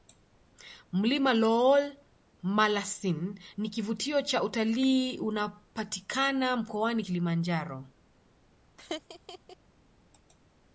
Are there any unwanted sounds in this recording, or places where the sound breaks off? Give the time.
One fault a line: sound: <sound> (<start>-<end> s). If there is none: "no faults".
sound: laugh (8.8-9.6 s)